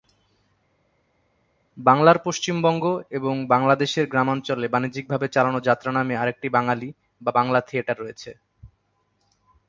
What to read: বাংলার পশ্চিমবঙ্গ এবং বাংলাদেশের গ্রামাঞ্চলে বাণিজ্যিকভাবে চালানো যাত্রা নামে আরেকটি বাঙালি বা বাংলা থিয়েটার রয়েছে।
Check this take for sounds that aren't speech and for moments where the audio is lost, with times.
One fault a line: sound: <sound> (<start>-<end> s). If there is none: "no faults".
no faults